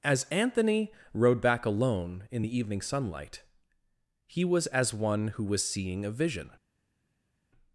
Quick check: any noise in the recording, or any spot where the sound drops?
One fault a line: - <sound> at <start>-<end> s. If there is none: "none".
none